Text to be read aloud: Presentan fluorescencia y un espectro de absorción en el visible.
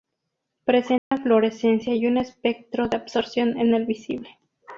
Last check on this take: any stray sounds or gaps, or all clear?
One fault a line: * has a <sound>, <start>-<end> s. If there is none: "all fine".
* has a dropout, 1.0-1.1 s